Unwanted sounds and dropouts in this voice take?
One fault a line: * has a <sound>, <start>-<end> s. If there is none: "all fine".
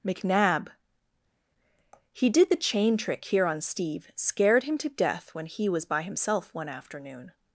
all fine